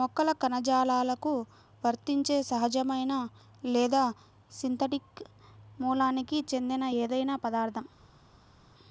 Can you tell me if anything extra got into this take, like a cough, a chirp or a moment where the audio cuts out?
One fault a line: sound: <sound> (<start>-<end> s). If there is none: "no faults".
no faults